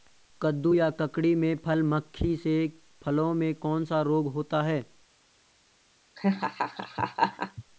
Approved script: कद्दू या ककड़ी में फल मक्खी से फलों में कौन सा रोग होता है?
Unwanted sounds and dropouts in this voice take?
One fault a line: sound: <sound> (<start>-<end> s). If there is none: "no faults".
sound: laugh (6.2-7.6 s)